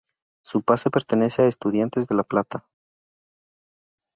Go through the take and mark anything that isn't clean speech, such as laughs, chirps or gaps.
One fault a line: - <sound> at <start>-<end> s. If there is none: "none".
none